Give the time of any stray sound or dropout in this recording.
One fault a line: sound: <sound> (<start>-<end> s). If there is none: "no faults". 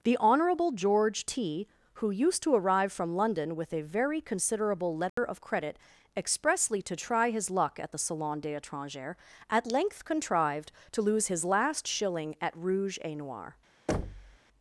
sound: dropout (5.1-5.2 s)
sound: thud (13.9-14.4 s)